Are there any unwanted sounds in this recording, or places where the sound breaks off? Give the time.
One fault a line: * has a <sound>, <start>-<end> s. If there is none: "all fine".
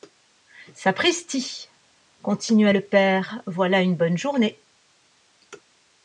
all fine